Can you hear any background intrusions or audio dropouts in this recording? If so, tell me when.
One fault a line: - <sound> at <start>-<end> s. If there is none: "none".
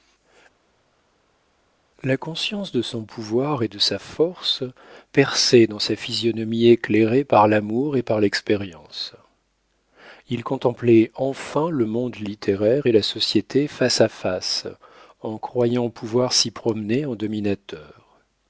none